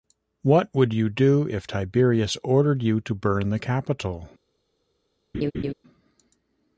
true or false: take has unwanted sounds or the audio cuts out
true